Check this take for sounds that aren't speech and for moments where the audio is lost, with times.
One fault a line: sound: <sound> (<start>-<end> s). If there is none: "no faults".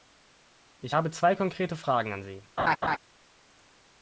sound: laugh (2.6-3.0 s)